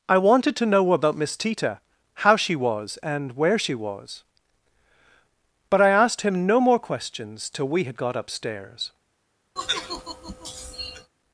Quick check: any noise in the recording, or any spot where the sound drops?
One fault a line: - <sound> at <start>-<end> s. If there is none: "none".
- sigh at 9.6-11.1 s